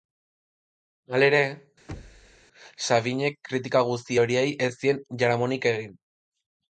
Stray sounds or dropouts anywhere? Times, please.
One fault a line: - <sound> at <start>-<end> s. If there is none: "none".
- thud at 1.9-2.5 s